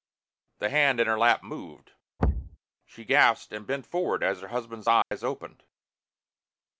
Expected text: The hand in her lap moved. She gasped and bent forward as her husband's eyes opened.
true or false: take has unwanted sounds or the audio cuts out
true